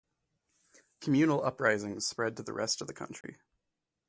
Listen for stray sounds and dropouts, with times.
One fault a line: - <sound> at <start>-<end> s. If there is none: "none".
- dropout at 3.2-3.2 s